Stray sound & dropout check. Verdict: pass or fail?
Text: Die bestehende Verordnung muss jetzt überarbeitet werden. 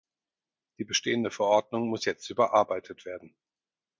pass